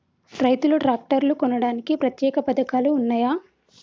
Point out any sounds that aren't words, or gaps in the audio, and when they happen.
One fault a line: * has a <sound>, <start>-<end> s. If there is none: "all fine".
all fine